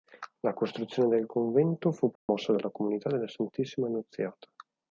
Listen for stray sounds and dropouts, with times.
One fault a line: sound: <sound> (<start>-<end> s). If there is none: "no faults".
sound: dropout (2.2-2.3 s)